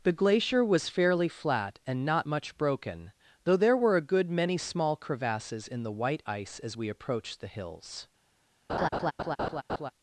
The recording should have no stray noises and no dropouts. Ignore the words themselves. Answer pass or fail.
fail